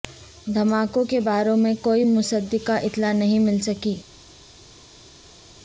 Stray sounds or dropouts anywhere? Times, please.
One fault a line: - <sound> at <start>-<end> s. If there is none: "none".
none